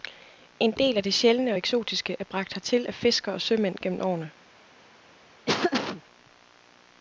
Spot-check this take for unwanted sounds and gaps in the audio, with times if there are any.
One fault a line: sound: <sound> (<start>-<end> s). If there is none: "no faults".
sound: laugh (5.5-6.0 s)